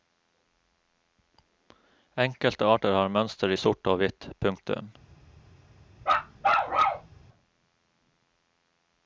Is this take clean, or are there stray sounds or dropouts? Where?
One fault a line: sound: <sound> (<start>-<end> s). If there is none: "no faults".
sound: bark (6.0-7.1 s)